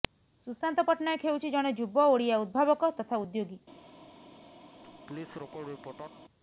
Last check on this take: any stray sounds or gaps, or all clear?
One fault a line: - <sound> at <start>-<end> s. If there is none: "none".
- laugh at 4.8-6.2 s